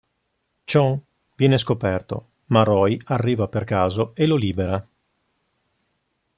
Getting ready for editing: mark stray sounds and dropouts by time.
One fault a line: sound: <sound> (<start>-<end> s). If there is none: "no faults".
no faults